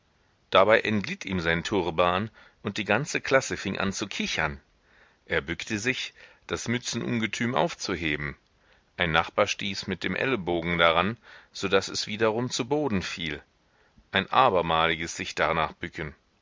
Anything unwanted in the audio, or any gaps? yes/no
no